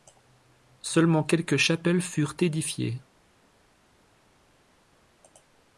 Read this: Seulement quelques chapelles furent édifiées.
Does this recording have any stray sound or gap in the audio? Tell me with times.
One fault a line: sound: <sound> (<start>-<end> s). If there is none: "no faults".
no faults